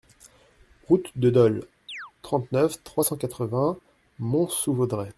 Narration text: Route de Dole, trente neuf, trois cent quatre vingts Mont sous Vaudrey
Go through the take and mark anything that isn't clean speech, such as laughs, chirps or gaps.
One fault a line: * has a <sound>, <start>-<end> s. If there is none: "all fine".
* has a chirp, 1.9-2.1 s